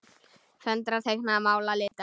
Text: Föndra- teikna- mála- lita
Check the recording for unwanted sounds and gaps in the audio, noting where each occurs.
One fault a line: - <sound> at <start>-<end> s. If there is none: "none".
- dropout at 1.9-1.9 s